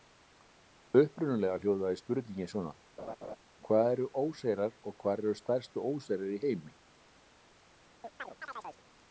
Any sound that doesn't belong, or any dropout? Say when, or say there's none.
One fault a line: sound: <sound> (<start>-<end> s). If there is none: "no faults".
sound: laugh (3.0-3.4 s)
sound: chirp (8.0-8.8 s)